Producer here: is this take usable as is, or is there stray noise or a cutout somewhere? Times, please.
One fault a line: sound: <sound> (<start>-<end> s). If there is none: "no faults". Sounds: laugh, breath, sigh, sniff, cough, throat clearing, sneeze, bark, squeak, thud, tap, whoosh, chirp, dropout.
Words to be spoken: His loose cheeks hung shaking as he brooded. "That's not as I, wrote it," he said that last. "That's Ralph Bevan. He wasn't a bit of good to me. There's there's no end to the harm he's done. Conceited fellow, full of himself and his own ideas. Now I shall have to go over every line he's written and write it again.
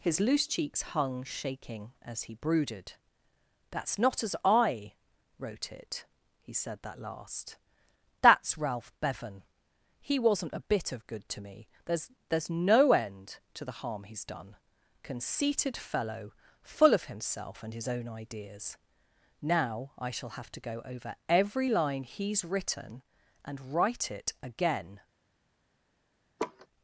sound: laugh (26.4-26.7 s)